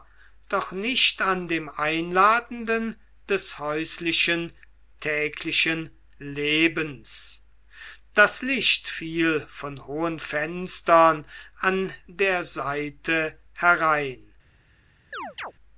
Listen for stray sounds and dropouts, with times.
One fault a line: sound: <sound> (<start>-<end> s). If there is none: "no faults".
sound: chirp (15.1-15.5 s)